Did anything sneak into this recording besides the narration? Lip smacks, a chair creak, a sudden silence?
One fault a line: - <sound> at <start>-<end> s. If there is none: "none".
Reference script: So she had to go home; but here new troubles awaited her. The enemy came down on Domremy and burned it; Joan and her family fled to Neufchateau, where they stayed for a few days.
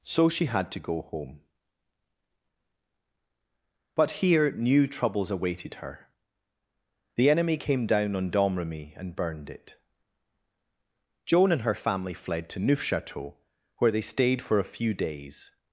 none